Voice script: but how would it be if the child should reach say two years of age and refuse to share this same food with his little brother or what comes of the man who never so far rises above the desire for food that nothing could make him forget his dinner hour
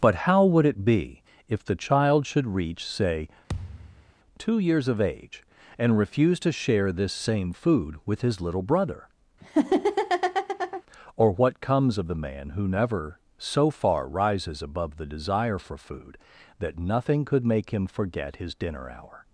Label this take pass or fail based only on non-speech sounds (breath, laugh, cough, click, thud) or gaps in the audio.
fail